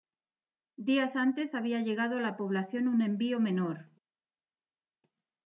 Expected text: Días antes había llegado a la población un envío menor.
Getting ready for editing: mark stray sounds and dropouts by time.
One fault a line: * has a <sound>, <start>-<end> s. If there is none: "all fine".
all fine